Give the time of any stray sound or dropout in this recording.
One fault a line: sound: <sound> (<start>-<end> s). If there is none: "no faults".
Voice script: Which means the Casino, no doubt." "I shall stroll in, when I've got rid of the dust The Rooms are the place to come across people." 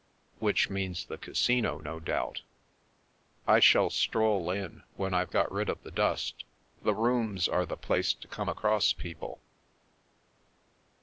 no faults